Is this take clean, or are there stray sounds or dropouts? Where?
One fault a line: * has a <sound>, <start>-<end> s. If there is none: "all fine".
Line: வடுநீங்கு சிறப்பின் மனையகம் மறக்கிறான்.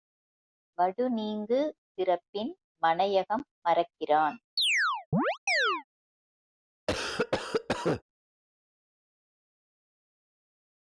* has a chirp, 4.6-5.8 s
* has a cough, 6.9-8.0 s